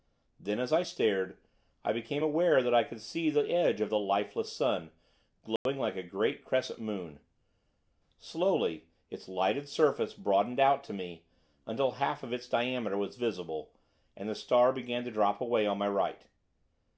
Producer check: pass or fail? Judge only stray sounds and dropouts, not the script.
fail